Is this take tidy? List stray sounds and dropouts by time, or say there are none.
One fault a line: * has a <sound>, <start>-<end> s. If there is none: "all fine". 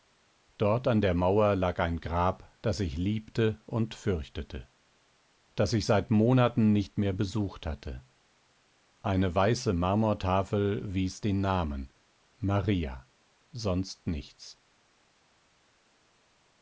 all fine